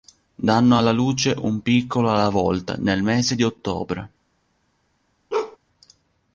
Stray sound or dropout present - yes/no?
yes